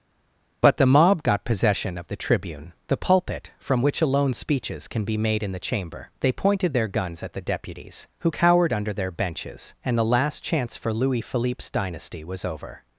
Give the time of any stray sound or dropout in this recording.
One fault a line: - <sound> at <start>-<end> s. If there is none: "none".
none